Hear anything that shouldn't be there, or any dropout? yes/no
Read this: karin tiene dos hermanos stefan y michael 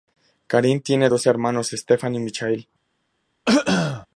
yes